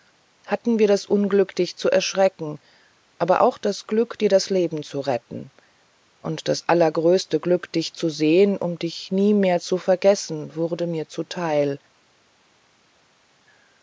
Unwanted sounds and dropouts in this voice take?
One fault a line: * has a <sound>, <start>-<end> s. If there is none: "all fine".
all fine